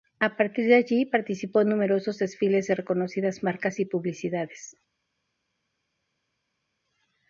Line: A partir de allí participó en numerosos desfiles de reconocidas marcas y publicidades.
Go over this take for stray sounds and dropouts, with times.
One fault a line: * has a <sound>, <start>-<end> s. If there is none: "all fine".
all fine